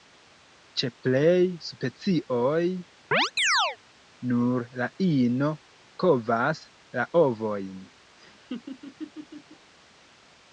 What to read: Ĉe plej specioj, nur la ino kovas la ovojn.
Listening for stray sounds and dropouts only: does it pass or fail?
fail